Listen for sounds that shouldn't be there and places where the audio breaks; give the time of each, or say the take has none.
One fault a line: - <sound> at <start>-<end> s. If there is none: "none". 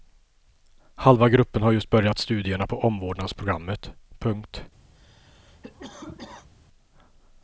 - cough at 4.9-6.5 s